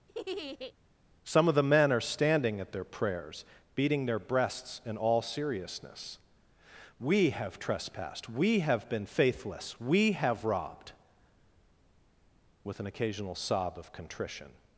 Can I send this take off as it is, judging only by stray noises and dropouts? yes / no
no